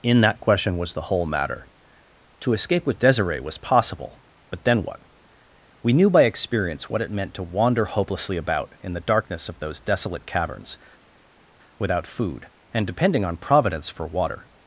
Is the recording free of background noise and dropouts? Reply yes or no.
yes